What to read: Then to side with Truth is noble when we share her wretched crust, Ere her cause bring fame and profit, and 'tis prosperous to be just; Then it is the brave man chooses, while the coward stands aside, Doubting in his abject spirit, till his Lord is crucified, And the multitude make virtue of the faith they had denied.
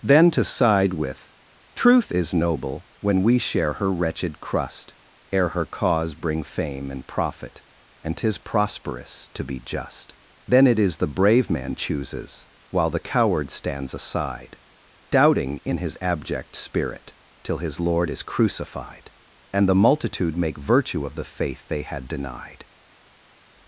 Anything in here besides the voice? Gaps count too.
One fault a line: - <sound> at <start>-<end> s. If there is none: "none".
none